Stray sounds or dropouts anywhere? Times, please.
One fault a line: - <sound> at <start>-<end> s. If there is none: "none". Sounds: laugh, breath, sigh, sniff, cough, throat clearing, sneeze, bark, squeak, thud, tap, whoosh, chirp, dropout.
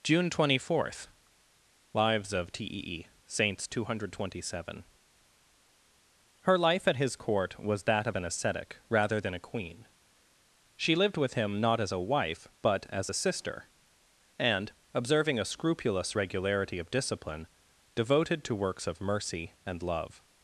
none